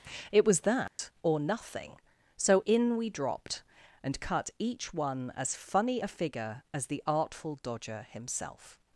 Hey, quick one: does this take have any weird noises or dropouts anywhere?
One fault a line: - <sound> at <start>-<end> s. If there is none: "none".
- dropout at 0.9-1.0 s